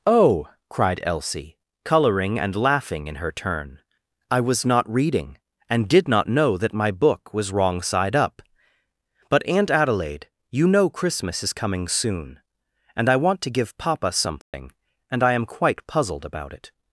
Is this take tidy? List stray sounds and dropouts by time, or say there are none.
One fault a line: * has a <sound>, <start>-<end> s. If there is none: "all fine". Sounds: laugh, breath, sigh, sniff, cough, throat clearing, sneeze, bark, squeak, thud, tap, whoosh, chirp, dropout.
* has a dropout, 14.4-14.5 s